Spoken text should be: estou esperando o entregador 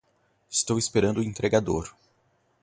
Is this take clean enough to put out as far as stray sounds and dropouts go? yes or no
yes